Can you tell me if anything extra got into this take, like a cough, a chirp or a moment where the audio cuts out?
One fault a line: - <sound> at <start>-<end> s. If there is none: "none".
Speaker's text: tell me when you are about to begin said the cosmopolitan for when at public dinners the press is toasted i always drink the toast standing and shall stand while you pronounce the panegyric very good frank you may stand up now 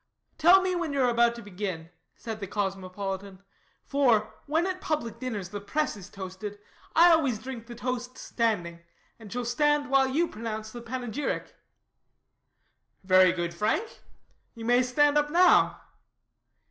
none